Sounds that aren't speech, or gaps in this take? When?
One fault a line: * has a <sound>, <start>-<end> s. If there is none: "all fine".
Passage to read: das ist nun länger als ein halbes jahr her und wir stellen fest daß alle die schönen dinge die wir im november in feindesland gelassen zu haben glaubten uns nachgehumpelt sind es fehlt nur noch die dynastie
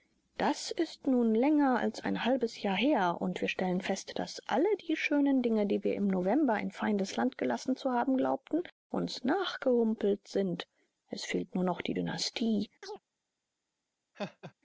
* has a chirp, 12.8-13.0 s
* has a laugh, 14.1-14.5 s